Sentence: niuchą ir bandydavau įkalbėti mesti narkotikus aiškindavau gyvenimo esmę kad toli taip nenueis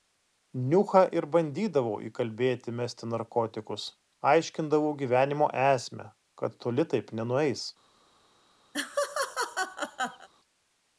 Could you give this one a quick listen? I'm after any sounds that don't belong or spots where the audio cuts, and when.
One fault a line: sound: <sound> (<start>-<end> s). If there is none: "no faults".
sound: laugh (8.7-10.3 s)